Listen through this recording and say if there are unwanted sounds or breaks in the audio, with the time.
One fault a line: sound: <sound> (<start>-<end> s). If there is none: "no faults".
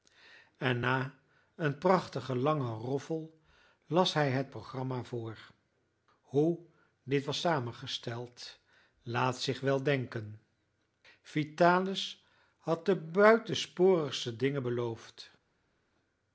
no faults